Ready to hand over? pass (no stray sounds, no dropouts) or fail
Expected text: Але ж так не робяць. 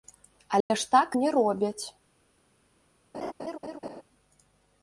fail